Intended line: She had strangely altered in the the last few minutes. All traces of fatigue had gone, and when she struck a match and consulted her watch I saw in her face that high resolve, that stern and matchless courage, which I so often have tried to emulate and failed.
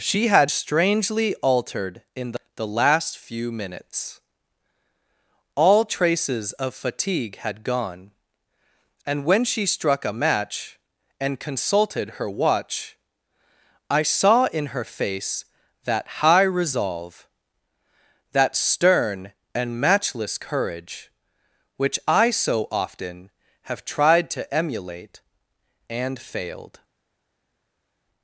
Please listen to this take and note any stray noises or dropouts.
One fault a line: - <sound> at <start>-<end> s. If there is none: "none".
none